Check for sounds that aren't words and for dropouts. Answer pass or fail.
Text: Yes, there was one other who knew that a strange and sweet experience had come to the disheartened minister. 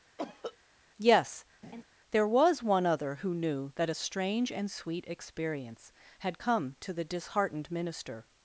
fail